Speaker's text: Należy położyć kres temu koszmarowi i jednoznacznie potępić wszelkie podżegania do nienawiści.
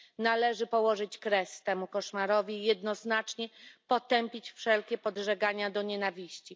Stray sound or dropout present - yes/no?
no